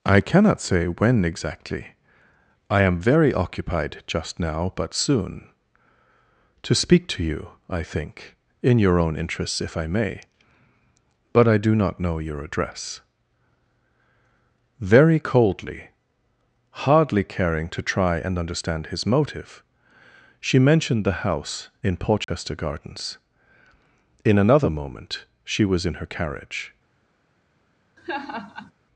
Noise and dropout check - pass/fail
fail